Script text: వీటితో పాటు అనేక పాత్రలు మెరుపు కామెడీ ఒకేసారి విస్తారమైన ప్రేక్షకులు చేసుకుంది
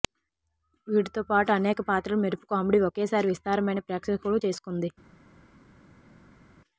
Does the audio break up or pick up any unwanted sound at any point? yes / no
no